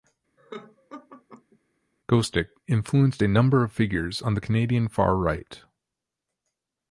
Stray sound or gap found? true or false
true